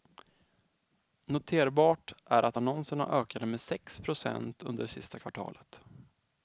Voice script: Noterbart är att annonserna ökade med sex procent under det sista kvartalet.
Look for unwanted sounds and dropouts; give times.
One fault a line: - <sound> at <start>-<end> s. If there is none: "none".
none